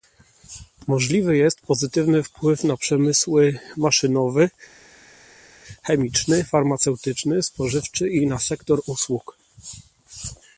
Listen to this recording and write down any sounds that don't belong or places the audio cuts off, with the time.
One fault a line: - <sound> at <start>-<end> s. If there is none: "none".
none